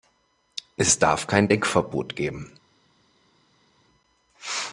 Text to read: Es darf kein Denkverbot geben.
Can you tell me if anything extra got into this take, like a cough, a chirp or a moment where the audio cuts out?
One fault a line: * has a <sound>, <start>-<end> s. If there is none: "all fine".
all fine